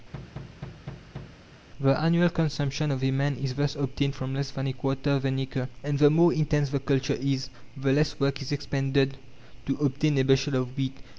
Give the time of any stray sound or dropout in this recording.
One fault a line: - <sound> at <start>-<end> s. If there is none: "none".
- thud at 0.1-1.4 s